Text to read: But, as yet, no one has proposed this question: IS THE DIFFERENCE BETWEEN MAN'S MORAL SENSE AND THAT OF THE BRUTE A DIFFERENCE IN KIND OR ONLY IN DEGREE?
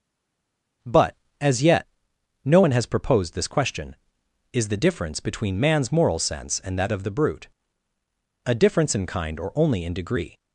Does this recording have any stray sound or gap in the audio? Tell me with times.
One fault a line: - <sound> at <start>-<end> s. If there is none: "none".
none